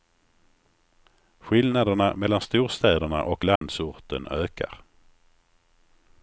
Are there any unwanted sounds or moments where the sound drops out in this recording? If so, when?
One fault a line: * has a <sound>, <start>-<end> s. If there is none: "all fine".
* has a dropout, 3.6-3.6 s